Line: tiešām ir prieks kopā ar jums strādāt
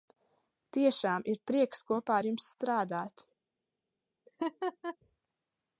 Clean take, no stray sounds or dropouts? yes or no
no